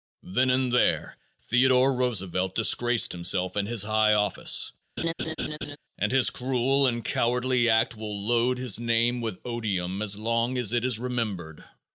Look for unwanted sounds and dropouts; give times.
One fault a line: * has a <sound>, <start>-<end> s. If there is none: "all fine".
* has a laugh, 5.0-5.8 s